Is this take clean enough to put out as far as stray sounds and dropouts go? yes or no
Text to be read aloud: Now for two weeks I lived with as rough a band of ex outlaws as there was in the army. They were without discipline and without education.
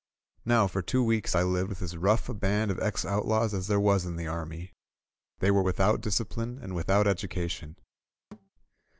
no